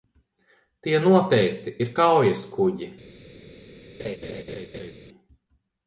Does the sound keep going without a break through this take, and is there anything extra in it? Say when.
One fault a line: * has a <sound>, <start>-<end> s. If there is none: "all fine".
* has a laugh, 4.0-4.9 s